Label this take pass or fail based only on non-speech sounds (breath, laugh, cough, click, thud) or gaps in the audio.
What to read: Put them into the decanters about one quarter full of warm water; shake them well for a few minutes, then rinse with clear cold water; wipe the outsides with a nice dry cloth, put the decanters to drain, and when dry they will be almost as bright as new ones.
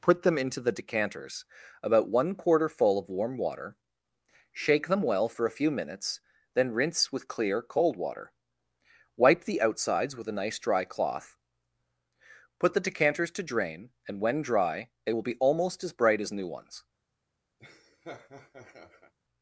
fail